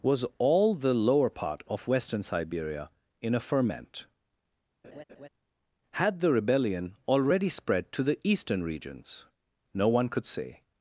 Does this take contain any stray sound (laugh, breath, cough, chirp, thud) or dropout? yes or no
yes